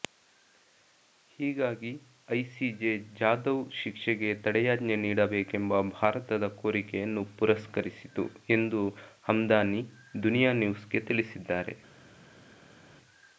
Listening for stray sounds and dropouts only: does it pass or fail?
pass